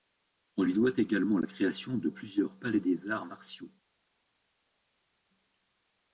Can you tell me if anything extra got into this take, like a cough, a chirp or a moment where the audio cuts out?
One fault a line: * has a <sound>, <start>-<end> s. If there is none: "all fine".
all fine